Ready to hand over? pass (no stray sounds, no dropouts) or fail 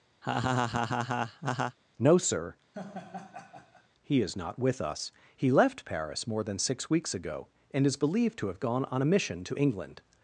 fail